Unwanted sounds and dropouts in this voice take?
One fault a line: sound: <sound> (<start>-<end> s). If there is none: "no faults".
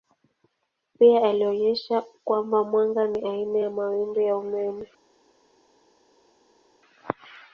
no faults